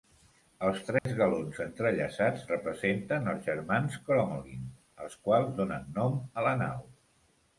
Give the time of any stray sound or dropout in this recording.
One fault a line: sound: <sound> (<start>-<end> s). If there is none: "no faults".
sound: dropout (1.0-1.1 s)